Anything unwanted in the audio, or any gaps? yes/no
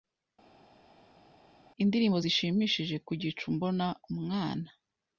no